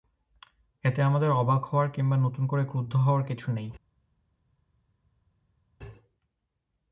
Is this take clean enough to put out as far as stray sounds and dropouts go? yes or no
yes